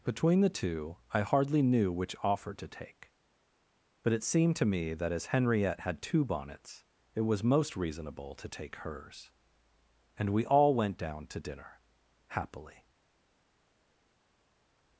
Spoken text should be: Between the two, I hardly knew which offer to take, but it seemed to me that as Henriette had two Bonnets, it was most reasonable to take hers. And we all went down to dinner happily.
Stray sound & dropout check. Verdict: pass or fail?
pass